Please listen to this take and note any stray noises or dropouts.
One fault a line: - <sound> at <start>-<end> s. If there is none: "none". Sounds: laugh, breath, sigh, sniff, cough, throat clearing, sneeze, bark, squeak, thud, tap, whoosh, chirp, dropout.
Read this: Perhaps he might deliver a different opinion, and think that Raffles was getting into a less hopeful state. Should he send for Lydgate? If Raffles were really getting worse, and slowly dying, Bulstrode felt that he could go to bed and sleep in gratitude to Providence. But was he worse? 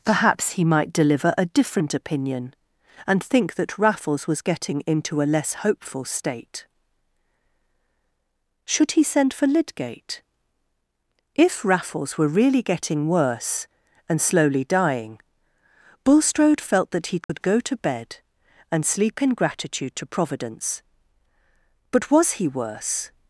- dropout at 17.2-17.3 s